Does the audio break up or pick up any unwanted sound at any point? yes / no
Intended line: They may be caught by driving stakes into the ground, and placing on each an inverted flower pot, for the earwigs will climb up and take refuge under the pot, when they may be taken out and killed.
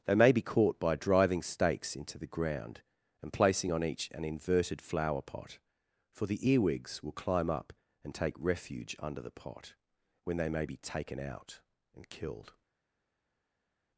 no